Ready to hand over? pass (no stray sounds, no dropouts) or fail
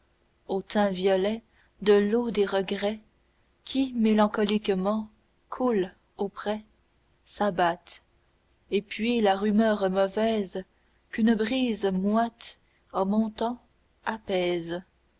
pass